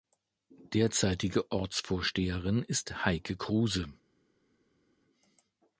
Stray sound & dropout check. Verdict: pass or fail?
pass